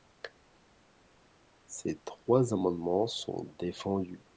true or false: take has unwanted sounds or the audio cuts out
false